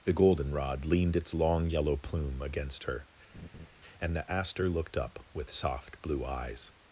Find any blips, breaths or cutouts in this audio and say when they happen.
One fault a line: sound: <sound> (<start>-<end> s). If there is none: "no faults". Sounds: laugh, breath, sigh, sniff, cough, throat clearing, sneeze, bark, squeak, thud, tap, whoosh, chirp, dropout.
sound: laugh (3.3-3.7 s)